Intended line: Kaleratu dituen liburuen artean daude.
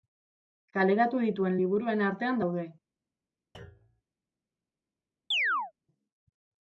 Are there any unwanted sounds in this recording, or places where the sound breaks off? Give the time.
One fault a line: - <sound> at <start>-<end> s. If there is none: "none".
- thud at 3.5-4.0 s
- chirp at 5.3-5.7 s